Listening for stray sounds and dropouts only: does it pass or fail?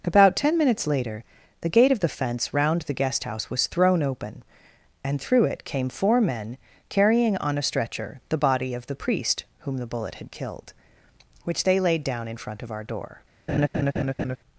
fail